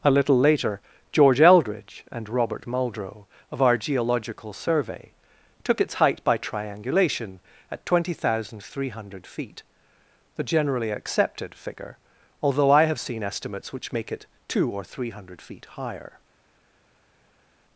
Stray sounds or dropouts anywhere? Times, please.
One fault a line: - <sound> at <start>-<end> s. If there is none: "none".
none